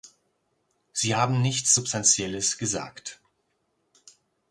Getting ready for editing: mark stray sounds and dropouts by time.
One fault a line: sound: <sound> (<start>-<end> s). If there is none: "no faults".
no faults